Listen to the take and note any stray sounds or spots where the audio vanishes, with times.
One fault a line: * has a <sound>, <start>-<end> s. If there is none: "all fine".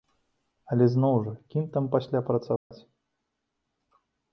* has a dropout, 2.6-2.7 s